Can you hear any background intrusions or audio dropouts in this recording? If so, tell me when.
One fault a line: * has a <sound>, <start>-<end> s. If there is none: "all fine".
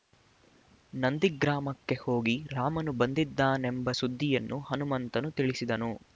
all fine